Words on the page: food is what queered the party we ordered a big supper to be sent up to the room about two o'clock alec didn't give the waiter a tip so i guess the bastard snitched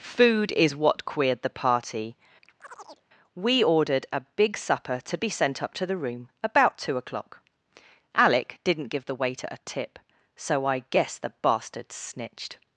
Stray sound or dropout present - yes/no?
yes